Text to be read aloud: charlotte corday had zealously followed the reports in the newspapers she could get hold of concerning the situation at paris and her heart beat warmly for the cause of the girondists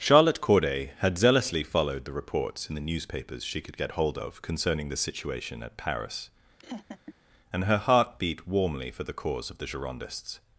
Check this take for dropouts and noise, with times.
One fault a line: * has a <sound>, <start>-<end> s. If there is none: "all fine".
* has a laugh, 6.6-7.1 s